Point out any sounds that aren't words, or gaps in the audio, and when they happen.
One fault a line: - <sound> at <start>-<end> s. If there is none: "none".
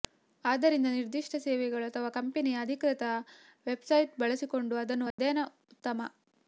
- dropout at 5.1-5.2 s